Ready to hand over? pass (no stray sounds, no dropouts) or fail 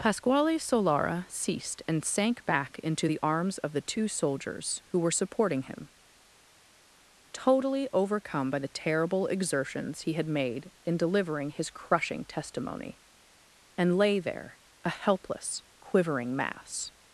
pass